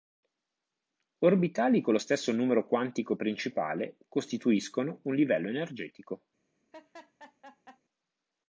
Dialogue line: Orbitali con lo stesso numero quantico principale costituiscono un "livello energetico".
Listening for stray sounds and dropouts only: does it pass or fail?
fail